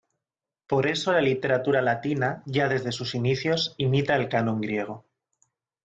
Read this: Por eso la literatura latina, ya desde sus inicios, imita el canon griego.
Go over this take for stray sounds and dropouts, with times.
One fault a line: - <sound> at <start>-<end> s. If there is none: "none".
none